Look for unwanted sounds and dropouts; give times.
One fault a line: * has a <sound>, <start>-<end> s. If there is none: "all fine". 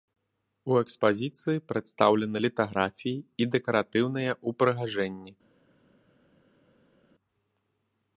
all fine